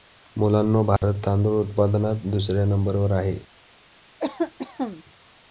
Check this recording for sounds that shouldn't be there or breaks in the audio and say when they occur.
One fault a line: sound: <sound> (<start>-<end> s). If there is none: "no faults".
sound: dropout (1.0-1.0 s)
sound: cough (4.2-5.0 s)